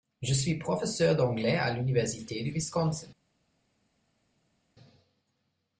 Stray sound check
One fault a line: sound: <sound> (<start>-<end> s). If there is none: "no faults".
no faults